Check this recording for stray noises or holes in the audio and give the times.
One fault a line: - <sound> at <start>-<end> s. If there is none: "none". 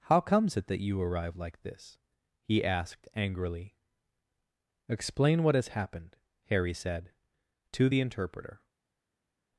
none